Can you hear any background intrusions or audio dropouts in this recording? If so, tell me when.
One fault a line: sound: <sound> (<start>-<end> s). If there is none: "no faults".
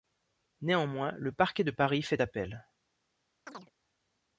sound: chirp (3.5-3.7 s)